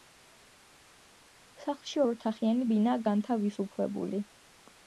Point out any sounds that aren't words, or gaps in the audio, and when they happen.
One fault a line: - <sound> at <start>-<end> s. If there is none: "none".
none